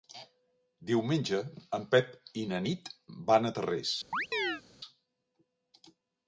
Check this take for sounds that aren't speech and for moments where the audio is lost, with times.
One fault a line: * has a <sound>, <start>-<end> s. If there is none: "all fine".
* has a chirp, 4.1-4.6 s